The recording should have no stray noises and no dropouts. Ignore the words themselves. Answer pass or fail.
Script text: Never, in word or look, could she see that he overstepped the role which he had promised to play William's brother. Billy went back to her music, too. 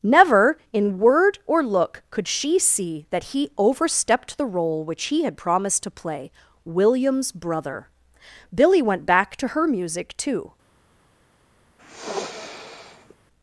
fail